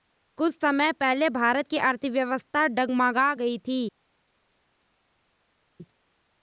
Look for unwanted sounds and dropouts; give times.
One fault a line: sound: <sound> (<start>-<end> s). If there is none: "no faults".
no faults